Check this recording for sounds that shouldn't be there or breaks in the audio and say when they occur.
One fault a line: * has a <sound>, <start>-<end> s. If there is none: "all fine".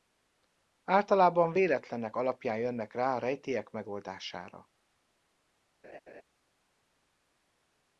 * has a laugh, 5.8-6.2 s